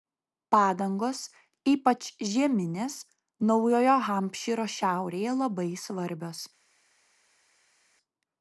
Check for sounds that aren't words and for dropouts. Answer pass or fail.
pass